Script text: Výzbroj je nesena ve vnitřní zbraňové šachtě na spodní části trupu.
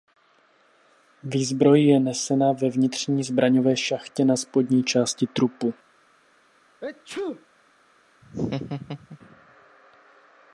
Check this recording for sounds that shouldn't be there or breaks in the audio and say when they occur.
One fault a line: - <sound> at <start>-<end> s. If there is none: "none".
- sneeze at 6.8-7.5 s
- laugh at 8.2-9.2 s